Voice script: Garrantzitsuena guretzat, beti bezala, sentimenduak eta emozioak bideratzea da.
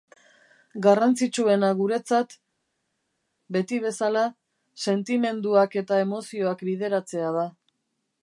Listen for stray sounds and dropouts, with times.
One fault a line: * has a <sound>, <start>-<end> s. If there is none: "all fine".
all fine